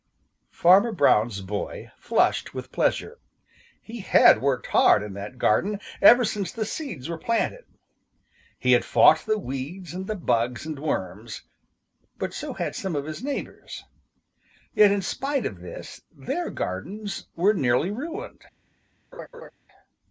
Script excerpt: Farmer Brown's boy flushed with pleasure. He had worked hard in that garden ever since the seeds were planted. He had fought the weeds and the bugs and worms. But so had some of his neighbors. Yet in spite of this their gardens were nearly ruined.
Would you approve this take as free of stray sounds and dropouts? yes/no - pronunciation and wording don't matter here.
no